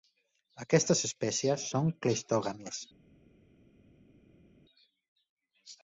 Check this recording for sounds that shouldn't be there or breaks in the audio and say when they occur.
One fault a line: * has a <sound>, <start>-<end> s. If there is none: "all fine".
all fine